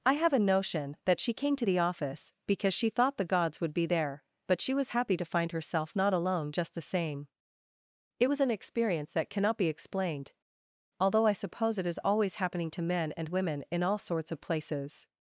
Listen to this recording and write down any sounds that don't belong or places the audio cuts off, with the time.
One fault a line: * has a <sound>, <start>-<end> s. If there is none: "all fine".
all fine